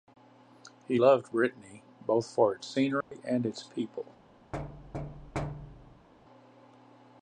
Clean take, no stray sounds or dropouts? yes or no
no